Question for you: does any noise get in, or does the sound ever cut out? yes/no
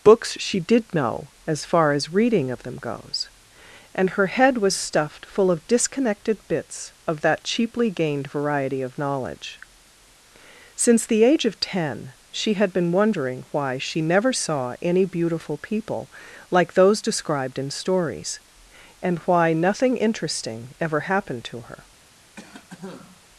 yes